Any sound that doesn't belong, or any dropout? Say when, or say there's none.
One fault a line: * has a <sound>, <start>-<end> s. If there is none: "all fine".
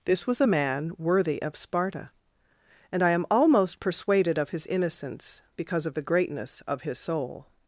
all fine